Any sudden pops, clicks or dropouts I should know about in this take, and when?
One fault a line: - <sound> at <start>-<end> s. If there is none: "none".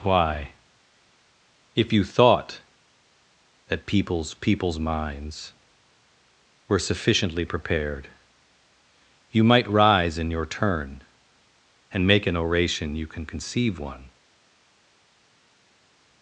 none